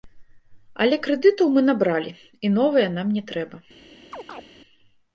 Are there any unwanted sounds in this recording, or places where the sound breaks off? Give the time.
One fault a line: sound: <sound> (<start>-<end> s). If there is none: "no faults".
sound: chirp (4.1-4.4 s)